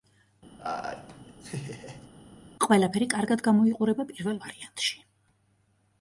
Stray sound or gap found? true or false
true